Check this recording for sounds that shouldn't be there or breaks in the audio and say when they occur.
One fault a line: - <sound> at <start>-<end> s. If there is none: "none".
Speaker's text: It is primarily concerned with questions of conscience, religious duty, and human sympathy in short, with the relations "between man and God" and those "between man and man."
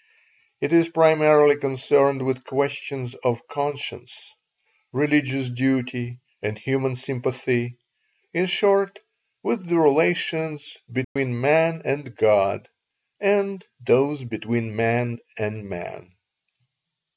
- dropout at 11.0-11.2 s